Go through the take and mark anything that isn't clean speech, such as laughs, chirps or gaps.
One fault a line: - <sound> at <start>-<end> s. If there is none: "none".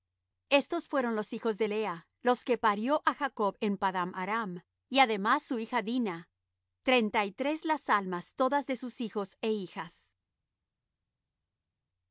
none